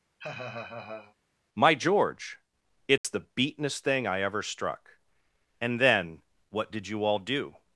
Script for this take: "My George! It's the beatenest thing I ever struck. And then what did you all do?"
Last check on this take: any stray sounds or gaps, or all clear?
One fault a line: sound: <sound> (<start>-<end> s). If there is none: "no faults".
sound: laugh (0.2-1.2 s)
sound: dropout (3.0-3.0 s)